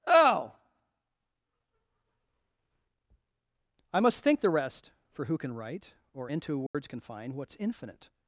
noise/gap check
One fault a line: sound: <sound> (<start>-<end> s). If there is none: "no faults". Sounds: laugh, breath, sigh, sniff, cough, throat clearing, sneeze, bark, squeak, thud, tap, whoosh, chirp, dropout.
sound: dropout (6.7-6.7 s)